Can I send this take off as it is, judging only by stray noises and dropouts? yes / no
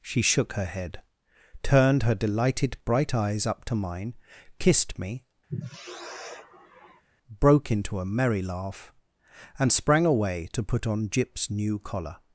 no